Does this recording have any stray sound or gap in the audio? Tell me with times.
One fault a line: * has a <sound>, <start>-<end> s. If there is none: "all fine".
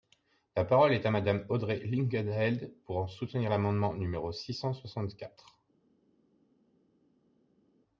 all fine